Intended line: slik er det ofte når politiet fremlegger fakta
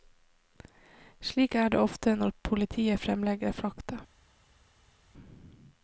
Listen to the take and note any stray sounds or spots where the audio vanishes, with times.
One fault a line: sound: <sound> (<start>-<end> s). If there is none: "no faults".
no faults